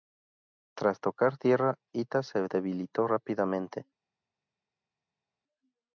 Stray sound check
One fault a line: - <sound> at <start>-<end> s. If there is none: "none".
none